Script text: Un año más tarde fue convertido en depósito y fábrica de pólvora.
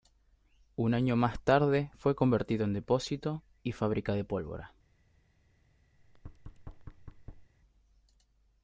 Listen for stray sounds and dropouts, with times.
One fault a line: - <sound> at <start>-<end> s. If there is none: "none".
- thud at 6.0-7.5 s